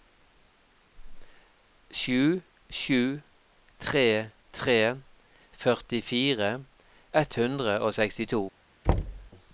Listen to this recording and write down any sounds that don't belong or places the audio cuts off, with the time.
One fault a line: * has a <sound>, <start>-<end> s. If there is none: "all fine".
* has a thud, 8.9-9.3 s